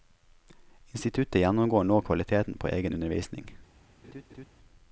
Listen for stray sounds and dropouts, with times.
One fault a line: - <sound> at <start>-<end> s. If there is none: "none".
- laugh at 4.0-4.5 s